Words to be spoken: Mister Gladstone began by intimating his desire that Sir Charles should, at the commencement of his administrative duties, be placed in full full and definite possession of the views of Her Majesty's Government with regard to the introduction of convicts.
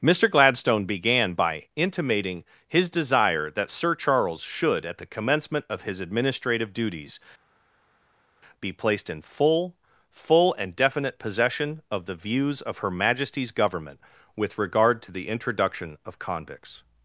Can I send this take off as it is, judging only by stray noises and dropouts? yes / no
yes